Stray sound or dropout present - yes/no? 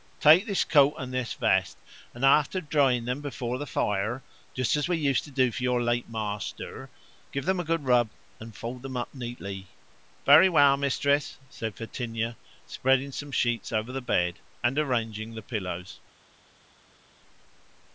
no